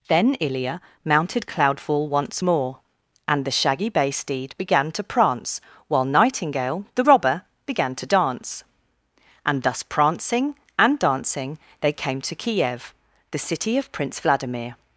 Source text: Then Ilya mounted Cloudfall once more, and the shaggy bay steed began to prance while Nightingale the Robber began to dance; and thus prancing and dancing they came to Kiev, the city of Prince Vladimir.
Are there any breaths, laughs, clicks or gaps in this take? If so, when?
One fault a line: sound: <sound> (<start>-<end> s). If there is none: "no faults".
no faults